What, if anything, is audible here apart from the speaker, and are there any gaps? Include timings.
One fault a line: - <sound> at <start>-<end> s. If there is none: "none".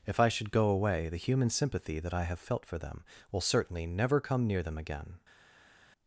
none